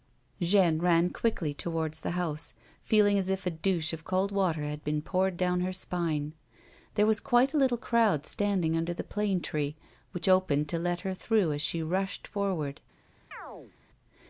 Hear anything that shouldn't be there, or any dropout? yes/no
yes